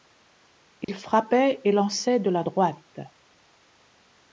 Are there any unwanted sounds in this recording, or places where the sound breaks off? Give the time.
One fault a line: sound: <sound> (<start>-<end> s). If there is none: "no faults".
sound: dropout (0.8-0.9 s)